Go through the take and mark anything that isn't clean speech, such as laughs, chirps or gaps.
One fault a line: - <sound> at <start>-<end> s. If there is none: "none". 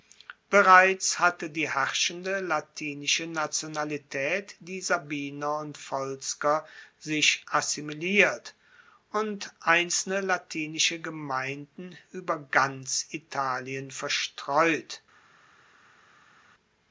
none